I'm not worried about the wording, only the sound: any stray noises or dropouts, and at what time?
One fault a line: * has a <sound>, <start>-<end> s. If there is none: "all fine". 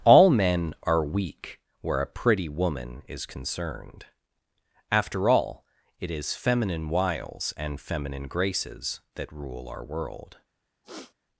* has a throat clearing, 10.8-11.1 s